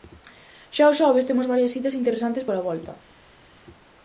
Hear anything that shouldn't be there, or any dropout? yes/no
no